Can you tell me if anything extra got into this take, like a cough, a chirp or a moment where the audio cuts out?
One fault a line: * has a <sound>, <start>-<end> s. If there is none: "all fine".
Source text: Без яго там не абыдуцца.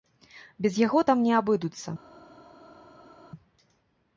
all fine